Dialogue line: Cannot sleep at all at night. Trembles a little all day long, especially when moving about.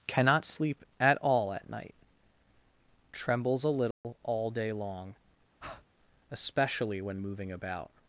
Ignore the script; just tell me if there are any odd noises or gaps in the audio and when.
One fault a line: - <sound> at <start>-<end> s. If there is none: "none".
- dropout at 3.9-4.0 s
- breath at 5.6-5.9 s